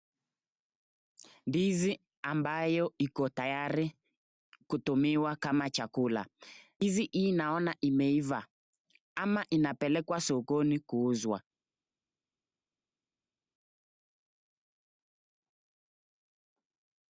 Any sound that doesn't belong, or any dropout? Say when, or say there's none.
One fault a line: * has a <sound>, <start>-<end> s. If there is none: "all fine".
all fine